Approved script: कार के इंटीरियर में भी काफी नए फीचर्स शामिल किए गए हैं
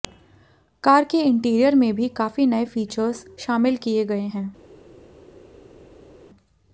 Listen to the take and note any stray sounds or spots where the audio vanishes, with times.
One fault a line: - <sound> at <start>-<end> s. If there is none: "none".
none